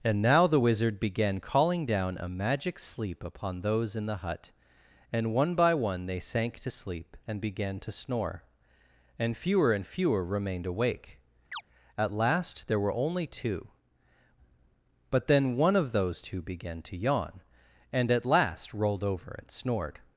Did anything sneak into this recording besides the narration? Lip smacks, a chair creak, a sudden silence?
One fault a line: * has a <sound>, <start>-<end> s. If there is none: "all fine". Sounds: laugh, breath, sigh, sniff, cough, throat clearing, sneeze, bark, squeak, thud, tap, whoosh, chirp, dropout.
* has a chirp, 11.5-11.6 s